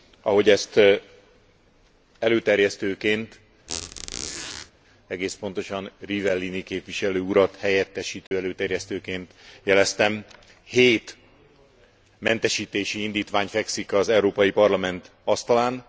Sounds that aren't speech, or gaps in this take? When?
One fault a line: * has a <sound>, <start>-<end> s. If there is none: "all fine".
* has a squeak, 3.7-4.7 s
* has a dropout, 8.3-8.3 s